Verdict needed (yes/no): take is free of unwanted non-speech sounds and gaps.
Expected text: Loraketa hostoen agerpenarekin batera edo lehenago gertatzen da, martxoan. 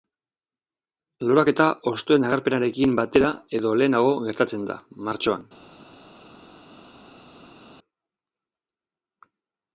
yes